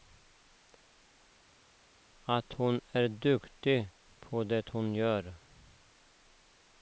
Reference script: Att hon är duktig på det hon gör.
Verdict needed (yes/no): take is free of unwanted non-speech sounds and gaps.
yes